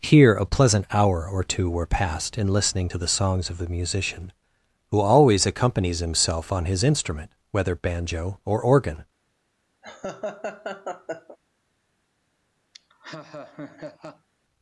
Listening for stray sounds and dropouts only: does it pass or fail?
fail